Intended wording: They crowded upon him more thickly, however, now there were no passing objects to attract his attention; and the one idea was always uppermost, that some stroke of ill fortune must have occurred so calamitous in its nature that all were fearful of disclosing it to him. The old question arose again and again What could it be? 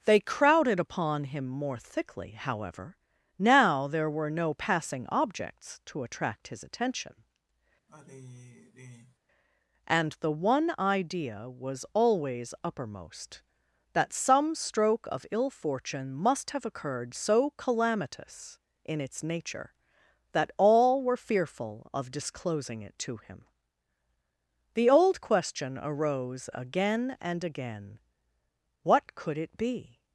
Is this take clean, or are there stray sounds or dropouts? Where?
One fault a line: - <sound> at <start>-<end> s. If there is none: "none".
- sigh at 7.9-9.2 s